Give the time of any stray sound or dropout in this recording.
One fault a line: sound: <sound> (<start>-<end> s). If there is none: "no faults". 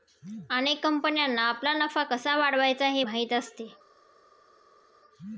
no faults